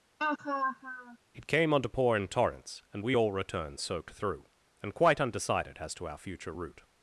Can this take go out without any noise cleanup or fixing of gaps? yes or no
no